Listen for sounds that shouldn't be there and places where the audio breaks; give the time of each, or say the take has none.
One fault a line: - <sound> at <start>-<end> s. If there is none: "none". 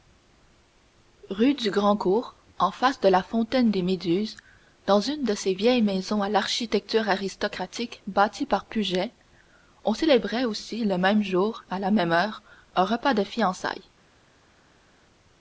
none